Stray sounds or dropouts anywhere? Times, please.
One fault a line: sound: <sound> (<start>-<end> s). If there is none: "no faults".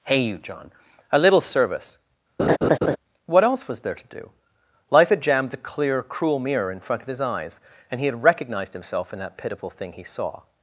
sound: laugh (2.4-3.0 s)